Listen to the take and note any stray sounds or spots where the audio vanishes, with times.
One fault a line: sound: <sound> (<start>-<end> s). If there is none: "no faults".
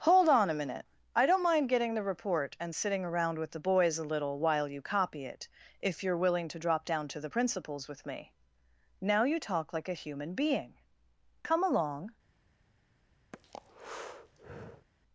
sound: breath (13.3-14.9 s)